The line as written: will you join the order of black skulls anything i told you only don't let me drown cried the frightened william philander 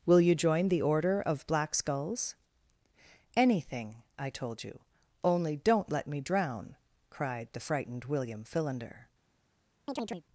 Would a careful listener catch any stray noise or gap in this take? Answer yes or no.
yes